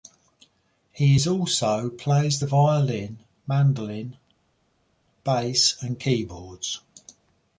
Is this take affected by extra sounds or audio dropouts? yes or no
no